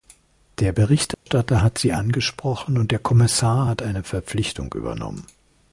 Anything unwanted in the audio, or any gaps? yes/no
yes